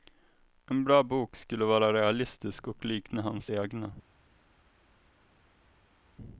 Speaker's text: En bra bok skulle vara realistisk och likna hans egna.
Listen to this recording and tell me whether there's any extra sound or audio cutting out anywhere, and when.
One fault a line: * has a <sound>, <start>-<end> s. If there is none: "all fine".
all fine